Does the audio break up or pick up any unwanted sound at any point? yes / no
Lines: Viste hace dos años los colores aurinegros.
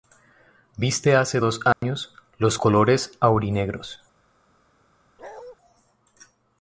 yes